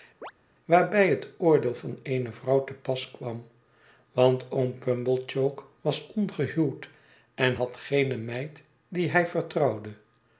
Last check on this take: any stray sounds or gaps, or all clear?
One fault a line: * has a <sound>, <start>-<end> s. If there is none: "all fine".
* has a chirp, 0.2-0.3 s